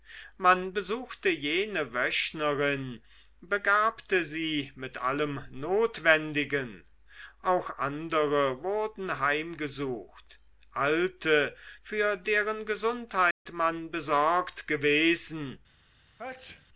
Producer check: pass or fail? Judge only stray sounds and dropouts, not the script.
fail